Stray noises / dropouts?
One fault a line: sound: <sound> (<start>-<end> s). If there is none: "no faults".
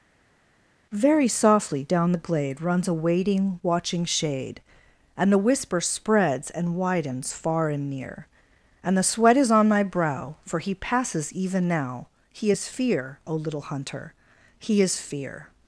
no faults